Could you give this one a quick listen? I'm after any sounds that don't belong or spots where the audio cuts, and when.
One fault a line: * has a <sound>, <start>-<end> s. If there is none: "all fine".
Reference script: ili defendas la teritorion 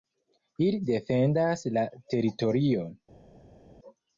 all fine